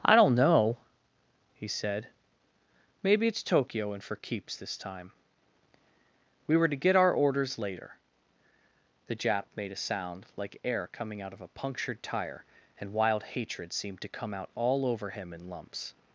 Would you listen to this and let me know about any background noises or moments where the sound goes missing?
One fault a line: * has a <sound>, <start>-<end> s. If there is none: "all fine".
all fine